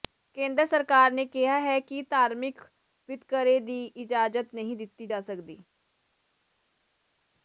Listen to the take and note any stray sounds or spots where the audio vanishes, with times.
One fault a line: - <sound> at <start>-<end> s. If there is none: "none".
none